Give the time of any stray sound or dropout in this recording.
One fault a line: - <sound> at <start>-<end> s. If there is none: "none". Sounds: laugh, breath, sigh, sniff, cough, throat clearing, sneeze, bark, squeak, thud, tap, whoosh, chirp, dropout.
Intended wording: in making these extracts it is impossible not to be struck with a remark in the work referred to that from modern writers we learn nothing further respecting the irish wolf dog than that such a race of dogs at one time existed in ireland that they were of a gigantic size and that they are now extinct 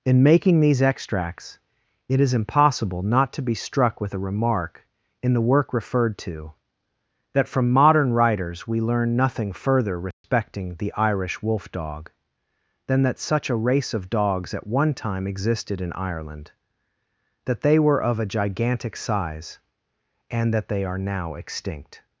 - dropout at 10.1-10.2 s